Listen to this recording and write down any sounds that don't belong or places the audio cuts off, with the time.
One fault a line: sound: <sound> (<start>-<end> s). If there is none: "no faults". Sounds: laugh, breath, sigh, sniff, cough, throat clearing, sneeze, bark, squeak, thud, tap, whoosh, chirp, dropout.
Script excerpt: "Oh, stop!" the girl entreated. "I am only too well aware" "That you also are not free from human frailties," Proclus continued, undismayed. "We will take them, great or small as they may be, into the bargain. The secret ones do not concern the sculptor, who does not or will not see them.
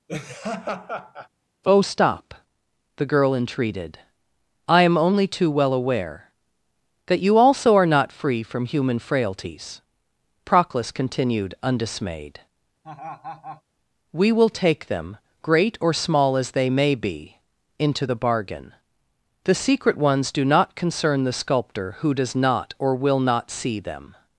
sound: laugh (0.1-1.3 s)
sound: laugh (12.8-13.6 s)